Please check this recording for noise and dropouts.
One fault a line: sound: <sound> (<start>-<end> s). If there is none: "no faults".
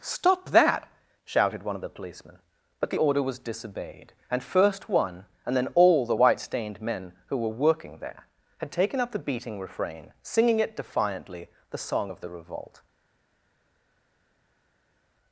no faults